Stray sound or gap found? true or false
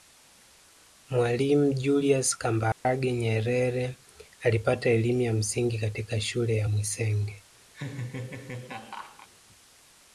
true